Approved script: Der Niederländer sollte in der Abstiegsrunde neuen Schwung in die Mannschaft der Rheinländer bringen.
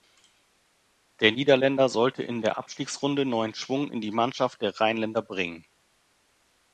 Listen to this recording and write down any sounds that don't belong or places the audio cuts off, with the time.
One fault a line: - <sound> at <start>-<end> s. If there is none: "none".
none